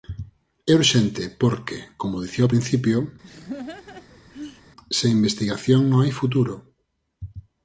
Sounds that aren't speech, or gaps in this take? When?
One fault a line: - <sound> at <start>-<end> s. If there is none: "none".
- laugh at 3.2-4.6 s